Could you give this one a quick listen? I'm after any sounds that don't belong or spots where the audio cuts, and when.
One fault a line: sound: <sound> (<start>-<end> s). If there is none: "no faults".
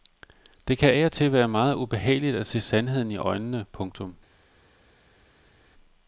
no faults